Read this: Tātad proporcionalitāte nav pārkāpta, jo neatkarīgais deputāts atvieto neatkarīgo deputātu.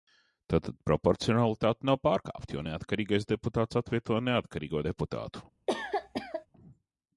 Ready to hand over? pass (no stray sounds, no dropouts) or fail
fail